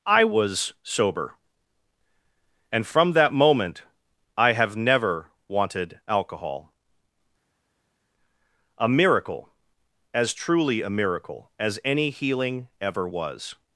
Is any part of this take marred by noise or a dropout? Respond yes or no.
no